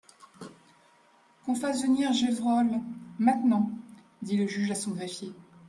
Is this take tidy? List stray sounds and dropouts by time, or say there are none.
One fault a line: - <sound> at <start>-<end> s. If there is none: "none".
none